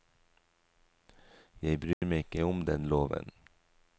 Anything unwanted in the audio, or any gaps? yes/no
yes